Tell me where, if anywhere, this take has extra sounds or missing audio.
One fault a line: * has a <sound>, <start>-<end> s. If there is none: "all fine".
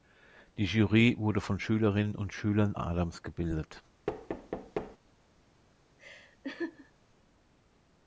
* has a thud, 4.1-5.0 s
* has a laugh, 6.0-6.9 s